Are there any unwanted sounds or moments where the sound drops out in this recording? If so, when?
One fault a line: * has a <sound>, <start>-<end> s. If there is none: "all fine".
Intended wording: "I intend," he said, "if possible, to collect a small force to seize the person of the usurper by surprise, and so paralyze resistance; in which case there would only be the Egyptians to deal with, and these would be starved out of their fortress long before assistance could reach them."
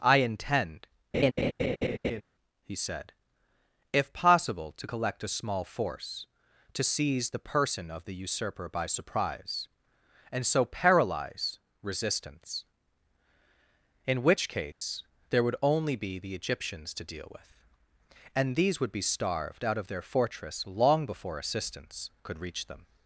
* has a laugh, 1.1-2.2 s
* has a dropout, 14.7-14.8 s